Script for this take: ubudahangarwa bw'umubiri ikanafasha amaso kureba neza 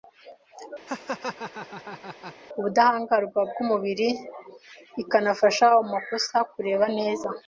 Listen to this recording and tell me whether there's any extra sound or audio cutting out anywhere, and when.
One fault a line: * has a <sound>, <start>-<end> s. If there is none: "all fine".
* has a laugh, 0.9-2.4 s